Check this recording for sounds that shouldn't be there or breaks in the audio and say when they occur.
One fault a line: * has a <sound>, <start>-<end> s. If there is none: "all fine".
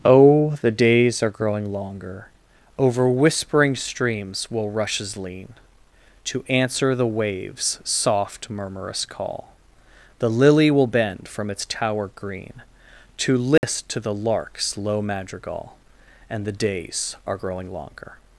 * has a dropout, 13.6-13.6 s